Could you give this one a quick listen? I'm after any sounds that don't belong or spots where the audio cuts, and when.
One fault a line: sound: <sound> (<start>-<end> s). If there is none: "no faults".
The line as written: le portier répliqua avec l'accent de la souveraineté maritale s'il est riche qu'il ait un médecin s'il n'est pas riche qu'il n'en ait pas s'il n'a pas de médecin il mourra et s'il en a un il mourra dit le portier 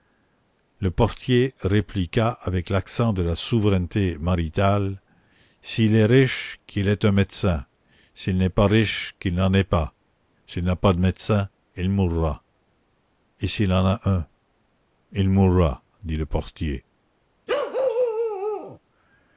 sound: bark (17.5-18.8 s)